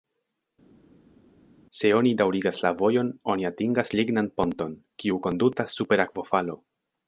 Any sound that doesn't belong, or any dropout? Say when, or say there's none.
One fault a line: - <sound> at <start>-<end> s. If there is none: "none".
none